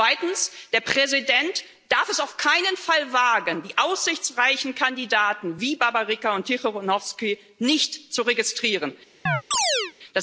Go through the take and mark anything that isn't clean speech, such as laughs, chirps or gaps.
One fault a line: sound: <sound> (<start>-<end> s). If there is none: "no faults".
sound: chirp (9.3-9.9 s)